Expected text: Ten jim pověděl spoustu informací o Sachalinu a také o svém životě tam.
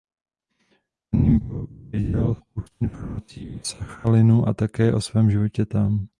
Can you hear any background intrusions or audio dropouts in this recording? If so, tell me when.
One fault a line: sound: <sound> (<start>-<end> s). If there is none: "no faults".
no faults